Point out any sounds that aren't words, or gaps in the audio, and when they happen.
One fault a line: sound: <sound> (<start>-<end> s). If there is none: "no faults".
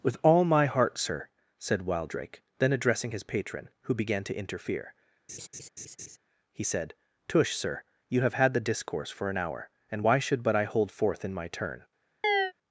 sound: laugh (5.3-6.2 s)
sound: chirp (12.2-12.5 s)